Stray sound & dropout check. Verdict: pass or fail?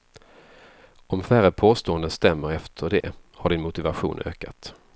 fail